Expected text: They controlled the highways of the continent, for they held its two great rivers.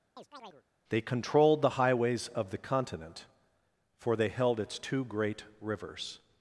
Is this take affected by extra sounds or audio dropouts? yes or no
yes